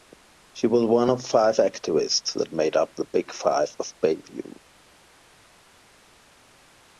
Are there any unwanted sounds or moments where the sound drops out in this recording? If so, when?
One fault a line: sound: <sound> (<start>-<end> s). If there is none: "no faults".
no faults